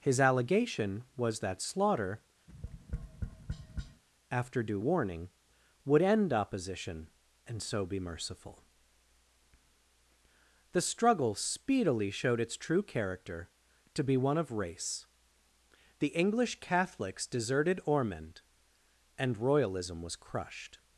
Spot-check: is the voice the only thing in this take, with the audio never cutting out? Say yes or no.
no